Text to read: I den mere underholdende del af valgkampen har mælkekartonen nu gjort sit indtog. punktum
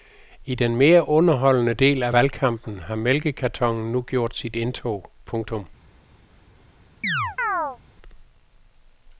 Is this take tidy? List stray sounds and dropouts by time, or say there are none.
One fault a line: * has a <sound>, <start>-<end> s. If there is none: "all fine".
* has a chirp, 7.0-7.8 s